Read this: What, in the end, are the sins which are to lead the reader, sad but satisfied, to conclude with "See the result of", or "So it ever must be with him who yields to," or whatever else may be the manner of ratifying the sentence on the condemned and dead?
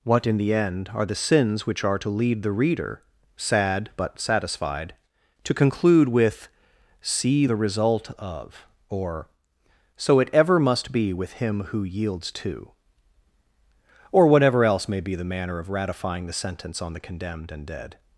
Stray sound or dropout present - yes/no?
no